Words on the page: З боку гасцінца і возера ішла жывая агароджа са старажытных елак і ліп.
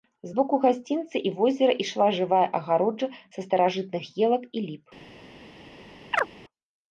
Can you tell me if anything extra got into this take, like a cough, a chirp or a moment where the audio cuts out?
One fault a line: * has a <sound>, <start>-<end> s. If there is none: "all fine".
* has a chirp, 6.1-6.3 s